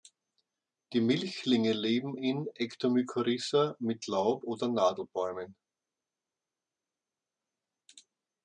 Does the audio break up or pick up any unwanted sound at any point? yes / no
no